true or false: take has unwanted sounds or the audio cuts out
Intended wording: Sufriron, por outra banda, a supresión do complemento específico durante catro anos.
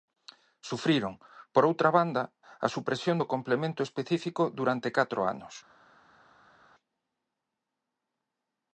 false